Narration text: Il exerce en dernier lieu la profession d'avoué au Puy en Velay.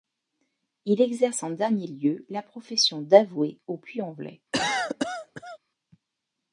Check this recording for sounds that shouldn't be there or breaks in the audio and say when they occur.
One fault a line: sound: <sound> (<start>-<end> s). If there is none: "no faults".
sound: cough (4.5-5.6 s)